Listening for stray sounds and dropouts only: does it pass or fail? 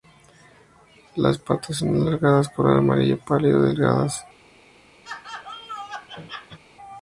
fail